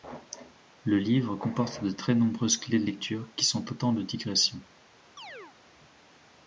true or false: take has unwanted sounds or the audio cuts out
true